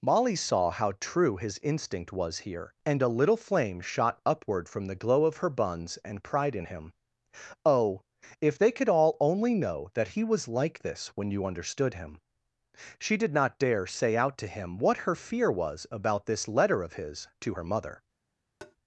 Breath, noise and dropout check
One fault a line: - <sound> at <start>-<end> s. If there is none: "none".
- tap at 18.6-18.8 s